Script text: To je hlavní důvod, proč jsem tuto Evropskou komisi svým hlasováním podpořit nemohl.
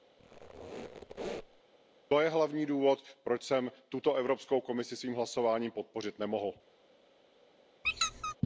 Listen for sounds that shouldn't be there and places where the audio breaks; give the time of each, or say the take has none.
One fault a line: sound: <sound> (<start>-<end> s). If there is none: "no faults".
sound: squeak (0.2-1.6 s)
sound: squeak (7.8-8.4 s)